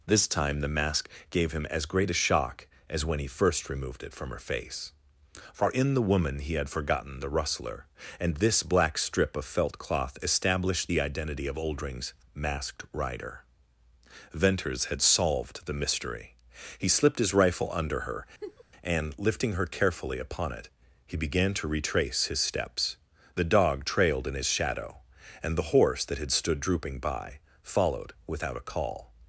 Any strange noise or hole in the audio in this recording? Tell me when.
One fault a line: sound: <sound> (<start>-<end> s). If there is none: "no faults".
sound: laugh (18.4-18.6 s)